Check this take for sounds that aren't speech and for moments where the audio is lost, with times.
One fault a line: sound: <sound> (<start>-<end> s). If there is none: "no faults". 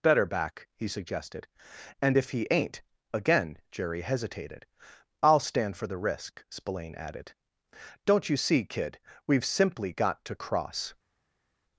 no faults